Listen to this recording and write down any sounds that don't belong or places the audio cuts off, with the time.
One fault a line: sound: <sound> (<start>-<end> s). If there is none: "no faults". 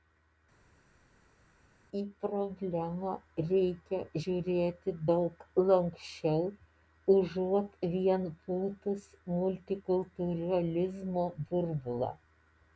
no faults